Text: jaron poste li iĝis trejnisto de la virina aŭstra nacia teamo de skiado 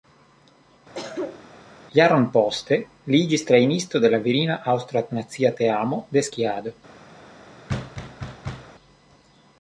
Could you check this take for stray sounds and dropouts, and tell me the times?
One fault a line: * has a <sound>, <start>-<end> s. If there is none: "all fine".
* has a cough, 0.9-1.4 s
* has a thud, 7.7-8.7 s